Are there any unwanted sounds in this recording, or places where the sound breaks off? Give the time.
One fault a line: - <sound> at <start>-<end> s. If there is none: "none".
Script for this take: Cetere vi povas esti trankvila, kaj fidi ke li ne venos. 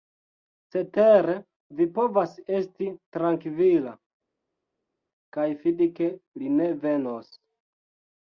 none